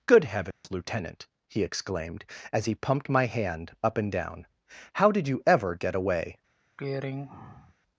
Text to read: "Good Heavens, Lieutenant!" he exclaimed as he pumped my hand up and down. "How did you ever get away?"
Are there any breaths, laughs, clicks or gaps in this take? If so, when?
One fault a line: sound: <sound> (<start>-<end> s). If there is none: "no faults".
sound: dropout (0.5-0.6 s)
sound: throat clearing (6.8-7.7 s)